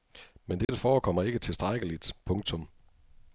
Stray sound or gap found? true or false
true